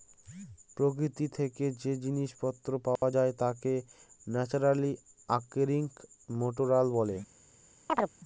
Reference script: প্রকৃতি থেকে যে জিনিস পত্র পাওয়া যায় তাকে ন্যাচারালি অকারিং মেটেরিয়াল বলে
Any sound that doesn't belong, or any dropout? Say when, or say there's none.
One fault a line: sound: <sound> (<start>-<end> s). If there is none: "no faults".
sound: dropout (3.0-3.0 s)
sound: chirp (7.9-8.1 s)